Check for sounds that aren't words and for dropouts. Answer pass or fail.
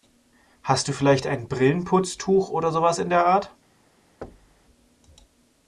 fail